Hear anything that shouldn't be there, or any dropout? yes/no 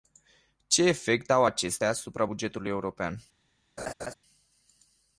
yes